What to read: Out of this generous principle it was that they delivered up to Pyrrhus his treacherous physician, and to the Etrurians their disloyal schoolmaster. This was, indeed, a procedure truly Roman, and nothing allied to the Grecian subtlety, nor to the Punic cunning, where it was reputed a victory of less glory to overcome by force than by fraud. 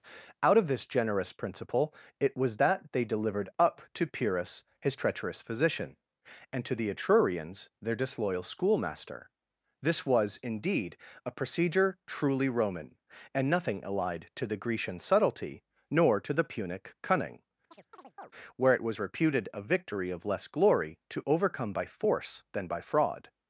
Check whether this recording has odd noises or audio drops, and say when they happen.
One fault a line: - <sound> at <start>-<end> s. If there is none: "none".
- chirp at 17.7-18.3 s